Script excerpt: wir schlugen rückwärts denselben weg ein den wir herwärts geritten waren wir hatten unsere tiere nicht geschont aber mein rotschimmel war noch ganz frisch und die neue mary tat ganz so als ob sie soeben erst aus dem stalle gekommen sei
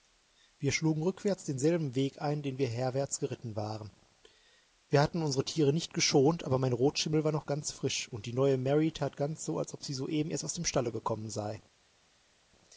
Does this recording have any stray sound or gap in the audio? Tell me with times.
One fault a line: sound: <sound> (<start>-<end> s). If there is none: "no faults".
no faults